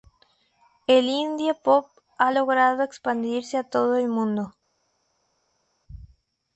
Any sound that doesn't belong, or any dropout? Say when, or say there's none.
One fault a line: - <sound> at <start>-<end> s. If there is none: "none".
none